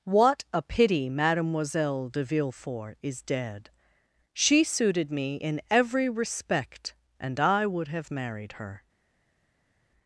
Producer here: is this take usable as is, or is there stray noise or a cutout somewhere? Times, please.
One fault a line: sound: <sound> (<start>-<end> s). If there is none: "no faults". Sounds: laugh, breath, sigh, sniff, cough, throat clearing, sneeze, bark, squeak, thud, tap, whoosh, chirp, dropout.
no faults